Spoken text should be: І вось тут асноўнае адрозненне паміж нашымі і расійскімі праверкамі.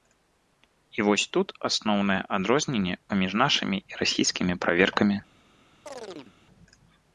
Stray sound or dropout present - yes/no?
yes